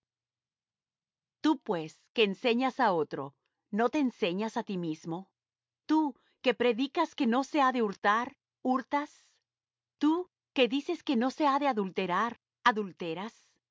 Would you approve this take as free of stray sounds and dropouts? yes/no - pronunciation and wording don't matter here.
yes